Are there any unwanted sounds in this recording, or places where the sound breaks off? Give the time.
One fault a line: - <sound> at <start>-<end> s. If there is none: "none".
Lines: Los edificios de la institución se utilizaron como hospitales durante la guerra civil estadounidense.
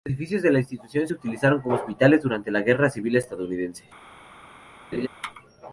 - laugh at 4.9-5.1 s